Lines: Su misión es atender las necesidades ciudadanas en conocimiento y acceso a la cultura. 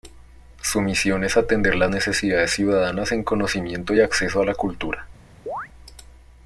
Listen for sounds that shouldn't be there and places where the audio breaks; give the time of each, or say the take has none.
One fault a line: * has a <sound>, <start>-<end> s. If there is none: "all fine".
* has a chirp, 5.5-5.7 s